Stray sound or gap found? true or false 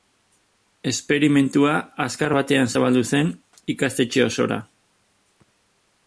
false